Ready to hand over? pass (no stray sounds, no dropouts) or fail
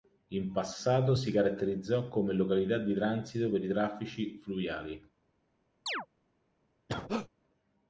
fail